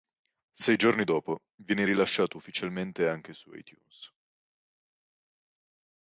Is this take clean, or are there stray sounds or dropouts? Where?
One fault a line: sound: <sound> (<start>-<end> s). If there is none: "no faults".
no faults